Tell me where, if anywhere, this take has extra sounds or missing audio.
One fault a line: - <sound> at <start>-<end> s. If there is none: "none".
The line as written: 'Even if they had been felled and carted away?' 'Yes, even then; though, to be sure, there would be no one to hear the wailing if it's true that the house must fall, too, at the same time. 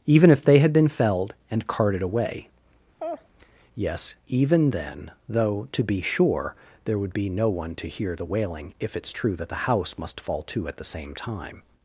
- laugh at 3.0-3.3 s